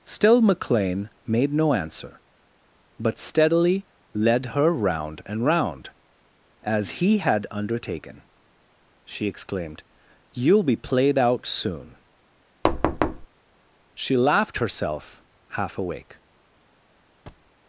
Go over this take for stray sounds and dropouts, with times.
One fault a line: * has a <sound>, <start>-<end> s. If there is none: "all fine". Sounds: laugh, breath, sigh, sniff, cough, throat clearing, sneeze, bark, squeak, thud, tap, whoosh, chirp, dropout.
* has a thud, 12.6-13.3 s
* has a thud, 17.3-17.5 s